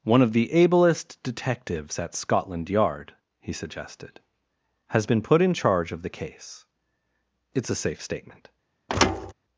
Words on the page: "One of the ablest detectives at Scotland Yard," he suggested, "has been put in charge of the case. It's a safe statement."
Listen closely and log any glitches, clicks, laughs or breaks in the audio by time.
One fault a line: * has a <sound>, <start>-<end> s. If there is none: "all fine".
* has a thud, 8.9-9.3 s